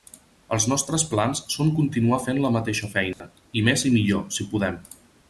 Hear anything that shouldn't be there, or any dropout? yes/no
yes